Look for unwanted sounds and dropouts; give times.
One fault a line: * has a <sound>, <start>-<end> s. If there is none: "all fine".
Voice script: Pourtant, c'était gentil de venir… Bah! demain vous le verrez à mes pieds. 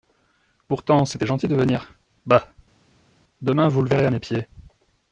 all fine